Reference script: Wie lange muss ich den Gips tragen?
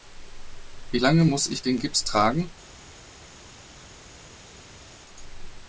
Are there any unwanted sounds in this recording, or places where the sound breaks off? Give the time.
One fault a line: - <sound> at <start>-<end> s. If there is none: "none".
none